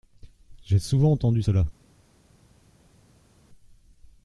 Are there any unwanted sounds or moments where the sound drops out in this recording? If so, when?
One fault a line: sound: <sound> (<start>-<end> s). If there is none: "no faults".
no faults